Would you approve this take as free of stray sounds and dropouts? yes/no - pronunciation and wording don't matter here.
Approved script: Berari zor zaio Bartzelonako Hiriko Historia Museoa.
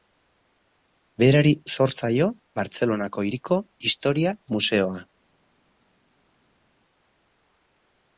yes